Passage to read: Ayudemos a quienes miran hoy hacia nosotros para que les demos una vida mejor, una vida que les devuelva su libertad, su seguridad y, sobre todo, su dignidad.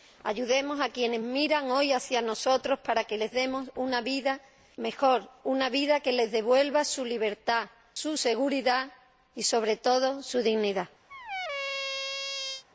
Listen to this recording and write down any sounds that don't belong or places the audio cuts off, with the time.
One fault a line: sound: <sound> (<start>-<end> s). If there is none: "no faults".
sound: squeak (11.1-12.6 s)